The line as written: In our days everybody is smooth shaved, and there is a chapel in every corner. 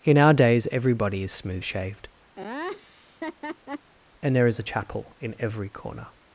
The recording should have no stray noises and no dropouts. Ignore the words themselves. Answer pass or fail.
fail